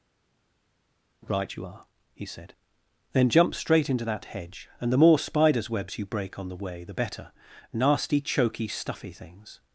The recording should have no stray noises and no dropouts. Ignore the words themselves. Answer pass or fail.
pass